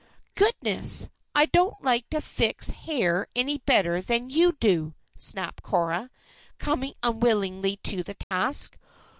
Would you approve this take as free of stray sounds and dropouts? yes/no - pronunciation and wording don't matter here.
no